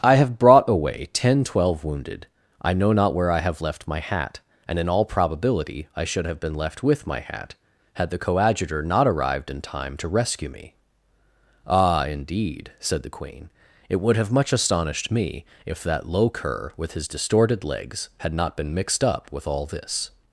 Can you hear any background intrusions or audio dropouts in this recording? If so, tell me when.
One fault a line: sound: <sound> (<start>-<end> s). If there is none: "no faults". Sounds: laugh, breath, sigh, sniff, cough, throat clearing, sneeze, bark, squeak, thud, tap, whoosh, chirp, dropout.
no faults